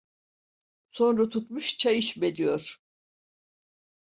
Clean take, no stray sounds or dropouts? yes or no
yes